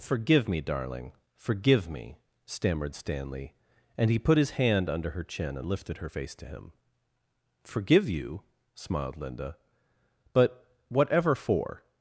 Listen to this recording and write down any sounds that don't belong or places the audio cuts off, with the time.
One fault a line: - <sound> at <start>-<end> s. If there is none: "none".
none